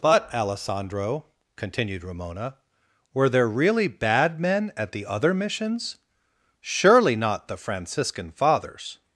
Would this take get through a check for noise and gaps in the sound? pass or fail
pass